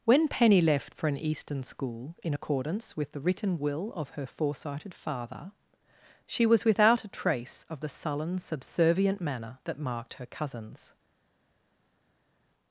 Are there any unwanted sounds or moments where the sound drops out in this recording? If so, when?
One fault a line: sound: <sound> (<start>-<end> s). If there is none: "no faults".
no faults